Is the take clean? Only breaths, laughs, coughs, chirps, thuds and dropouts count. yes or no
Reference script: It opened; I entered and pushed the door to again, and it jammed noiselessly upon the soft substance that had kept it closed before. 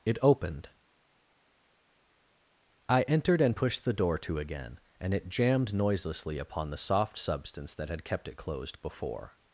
yes